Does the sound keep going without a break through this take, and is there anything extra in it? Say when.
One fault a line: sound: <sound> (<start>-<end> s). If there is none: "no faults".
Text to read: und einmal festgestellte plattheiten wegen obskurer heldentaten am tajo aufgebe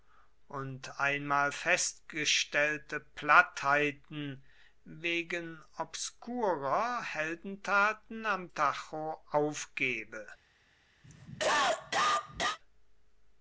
sound: cough (11.0-12.6 s)